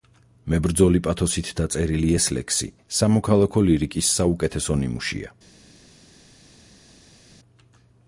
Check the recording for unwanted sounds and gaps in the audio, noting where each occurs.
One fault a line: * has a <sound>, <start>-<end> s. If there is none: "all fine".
all fine